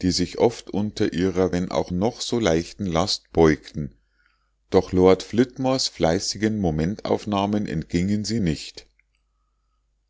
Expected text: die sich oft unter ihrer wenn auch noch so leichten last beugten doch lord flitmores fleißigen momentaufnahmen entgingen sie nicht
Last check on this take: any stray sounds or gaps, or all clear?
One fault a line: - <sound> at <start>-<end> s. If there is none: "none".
none